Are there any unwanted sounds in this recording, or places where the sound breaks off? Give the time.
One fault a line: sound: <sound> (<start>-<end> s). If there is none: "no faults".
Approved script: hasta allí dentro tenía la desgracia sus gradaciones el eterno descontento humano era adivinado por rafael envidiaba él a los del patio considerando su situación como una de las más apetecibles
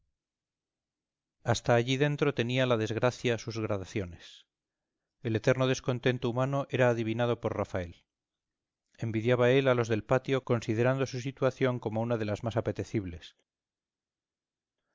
no faults